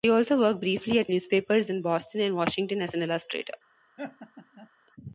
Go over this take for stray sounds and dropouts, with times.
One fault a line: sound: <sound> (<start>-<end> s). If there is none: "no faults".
sound: laugh (4.0-4.7 s)